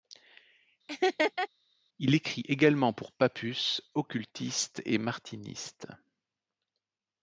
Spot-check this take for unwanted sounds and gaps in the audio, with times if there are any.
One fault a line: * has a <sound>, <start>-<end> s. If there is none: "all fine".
* has a laugh, 0.9-1.5 s